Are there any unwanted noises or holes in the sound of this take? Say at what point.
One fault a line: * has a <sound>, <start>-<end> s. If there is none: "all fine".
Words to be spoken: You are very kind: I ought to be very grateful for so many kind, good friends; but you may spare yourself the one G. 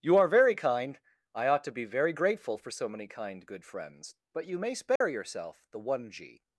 * has a dropout, 5.0-5.0 s